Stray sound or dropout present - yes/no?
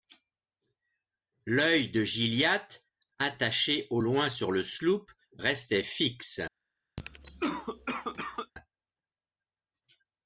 yes